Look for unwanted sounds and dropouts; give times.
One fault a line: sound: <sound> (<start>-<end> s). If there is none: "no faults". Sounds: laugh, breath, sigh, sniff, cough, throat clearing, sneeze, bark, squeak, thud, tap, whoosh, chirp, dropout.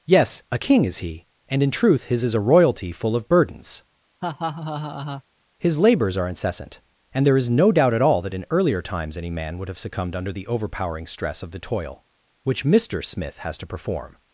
sound: laugh (4.2-5.2 s)